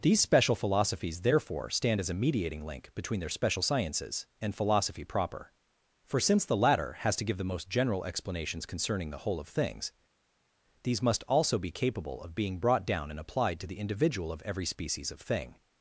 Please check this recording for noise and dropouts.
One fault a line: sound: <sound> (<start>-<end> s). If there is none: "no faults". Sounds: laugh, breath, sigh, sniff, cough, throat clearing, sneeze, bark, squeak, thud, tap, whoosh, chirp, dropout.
no faults